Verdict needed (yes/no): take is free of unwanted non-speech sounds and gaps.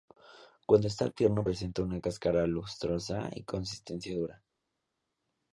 yes